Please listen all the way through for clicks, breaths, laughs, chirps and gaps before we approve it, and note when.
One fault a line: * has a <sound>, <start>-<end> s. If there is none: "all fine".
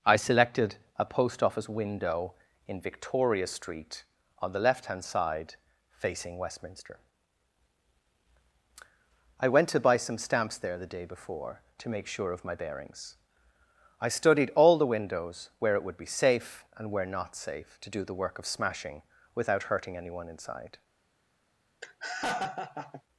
* has a laugh, 21.8-23.0 s